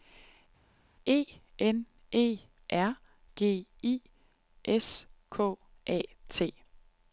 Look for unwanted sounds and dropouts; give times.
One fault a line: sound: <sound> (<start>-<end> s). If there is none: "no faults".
no faults